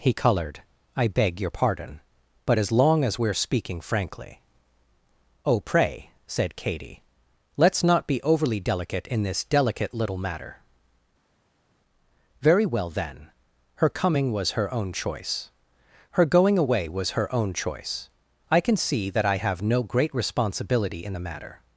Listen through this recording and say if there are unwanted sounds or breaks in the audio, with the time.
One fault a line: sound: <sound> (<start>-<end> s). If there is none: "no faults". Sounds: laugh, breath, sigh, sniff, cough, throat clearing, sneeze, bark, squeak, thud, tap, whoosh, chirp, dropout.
no faults